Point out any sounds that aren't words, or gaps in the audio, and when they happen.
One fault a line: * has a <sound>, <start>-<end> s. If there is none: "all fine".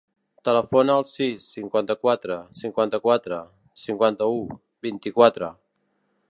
all fine